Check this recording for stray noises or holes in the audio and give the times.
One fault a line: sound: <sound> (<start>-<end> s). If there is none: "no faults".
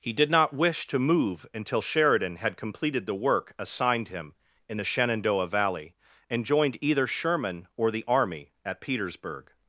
no faults